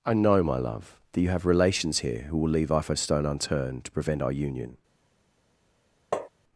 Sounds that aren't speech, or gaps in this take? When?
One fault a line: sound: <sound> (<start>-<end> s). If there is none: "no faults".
sound: tap (6.1-6.3 s)